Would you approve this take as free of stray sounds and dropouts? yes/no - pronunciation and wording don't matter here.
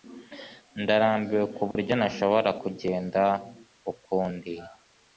no